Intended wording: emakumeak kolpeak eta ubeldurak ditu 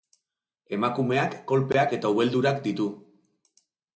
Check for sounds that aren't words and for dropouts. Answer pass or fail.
pass